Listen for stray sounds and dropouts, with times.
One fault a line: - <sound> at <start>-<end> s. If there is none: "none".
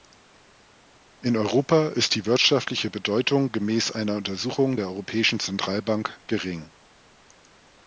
none